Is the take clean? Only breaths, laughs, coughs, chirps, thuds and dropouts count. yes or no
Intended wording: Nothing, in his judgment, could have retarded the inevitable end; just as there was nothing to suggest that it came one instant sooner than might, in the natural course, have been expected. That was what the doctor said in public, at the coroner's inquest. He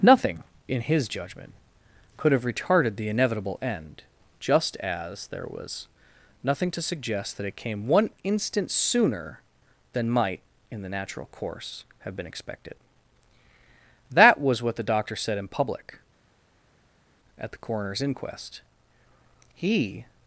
yes